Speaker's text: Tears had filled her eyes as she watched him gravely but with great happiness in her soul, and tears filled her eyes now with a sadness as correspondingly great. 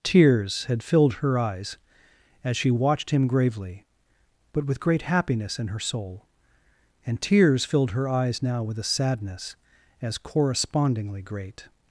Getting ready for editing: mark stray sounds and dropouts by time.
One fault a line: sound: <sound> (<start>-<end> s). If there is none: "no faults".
no faults